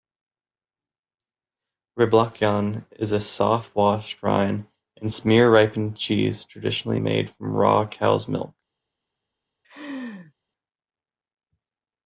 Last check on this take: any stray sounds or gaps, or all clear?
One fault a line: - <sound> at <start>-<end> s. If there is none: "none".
- laugh at 9.6-10.3 s